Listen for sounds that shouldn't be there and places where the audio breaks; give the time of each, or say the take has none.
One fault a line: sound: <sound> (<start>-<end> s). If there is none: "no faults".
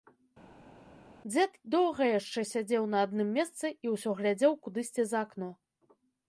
no faults